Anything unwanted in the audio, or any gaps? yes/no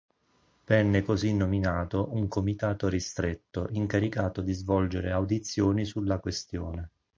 no